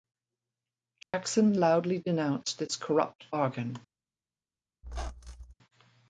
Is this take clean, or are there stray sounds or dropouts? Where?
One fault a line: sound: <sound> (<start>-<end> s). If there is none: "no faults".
sound: dropout (1.0-1.1 s)
sound: squeak (4.8-5.5 s)